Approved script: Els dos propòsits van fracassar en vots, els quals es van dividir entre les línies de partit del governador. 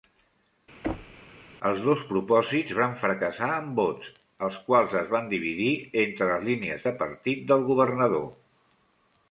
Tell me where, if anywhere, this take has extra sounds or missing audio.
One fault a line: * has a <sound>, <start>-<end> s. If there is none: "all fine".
* has a thud, 0.8-1.2 s